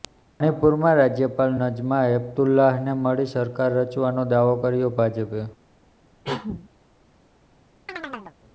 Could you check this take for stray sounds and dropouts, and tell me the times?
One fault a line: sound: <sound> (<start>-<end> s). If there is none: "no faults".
sound: cough (6.2-6.7 s)
sound: chirp (7.9-8.4 s)